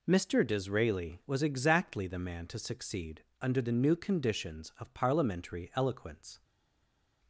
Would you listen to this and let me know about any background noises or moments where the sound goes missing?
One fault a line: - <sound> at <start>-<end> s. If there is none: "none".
none